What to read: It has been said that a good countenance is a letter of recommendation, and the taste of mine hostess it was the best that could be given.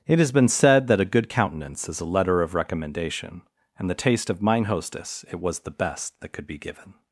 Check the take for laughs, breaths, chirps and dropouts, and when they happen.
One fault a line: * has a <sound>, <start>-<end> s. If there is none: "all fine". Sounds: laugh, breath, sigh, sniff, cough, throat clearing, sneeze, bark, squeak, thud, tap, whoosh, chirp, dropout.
all fine